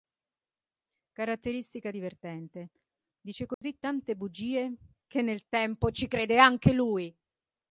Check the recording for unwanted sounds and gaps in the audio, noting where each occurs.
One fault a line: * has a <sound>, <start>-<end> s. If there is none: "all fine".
* has a dropout, 3.5-3.6 s